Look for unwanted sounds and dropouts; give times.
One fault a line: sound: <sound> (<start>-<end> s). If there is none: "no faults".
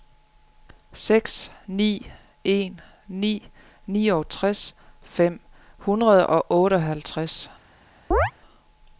sound: chirp (8.1-8.3 s)